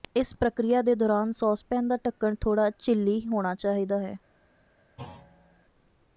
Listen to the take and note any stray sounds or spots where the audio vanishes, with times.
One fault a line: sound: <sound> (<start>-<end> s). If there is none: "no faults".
sound: thud (5.0-5.7 s)